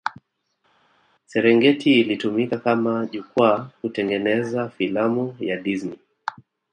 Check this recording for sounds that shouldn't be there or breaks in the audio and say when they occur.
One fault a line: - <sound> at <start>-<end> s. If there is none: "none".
none